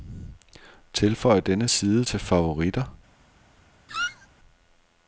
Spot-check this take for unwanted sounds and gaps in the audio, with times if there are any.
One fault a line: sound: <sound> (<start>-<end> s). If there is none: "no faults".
sound: squeak (3.9-4.3 s)